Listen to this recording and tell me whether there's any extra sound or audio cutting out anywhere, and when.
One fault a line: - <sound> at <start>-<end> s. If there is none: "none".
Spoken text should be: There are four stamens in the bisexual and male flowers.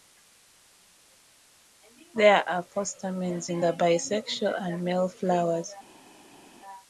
none